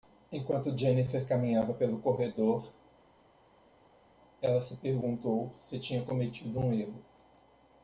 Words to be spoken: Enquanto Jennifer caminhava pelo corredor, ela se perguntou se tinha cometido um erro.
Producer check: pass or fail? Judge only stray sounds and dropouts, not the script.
pass